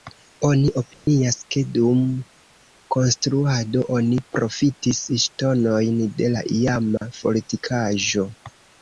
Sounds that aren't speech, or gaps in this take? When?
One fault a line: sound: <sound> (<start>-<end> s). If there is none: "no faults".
sound: dropout (0.9-1.1 s)
sound: dropout (7.0-7.0 s)